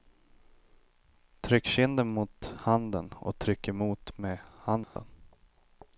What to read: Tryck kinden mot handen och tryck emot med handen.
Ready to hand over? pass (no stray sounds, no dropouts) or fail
fail